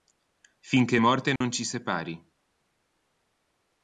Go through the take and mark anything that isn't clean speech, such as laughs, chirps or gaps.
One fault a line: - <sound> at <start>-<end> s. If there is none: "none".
- dropout at 1.4-1.4 s